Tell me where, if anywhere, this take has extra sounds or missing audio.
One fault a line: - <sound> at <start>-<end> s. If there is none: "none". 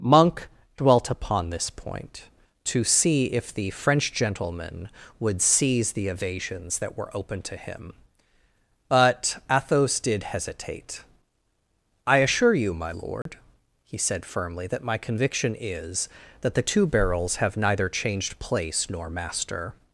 - dropout at 13.2-13.3 s